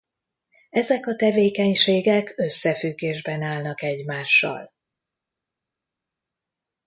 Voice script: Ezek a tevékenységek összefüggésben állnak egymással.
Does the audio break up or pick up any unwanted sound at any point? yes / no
no